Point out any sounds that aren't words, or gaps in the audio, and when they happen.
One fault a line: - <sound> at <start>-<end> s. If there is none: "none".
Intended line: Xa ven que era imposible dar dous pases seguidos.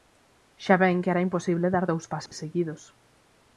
- dropout at 2.3-2.3 s